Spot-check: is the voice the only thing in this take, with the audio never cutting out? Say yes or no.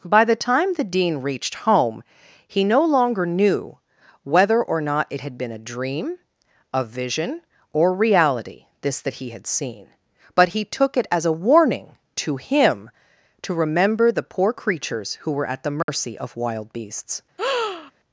no